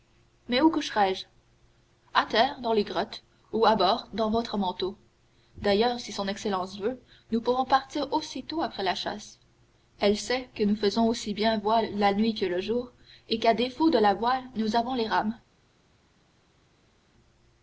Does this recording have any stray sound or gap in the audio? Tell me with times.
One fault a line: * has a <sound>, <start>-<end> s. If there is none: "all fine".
all fine